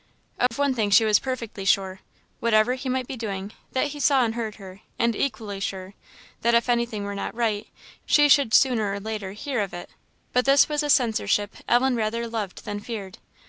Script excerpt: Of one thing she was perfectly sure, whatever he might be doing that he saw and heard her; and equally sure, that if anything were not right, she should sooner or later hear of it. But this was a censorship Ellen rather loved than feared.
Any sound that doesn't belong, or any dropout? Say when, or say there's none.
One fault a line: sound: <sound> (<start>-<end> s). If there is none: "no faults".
sound: dropout (0.5-0.5 s)